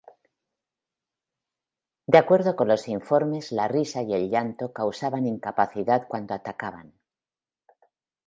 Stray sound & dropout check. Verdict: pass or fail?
pass